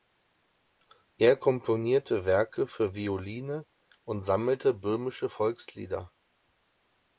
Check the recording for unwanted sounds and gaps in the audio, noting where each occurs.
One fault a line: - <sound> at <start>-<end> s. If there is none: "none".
none